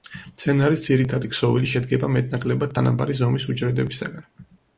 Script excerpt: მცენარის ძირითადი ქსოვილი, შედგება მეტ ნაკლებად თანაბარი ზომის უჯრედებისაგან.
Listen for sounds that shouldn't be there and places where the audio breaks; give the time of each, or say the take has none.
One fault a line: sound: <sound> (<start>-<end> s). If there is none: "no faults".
no faults